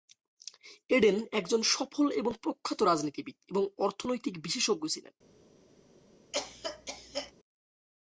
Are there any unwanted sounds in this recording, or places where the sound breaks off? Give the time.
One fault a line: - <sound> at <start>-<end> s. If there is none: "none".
- cough at 6.3-7.3 s